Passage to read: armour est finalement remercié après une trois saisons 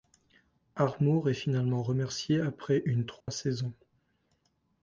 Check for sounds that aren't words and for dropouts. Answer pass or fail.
fail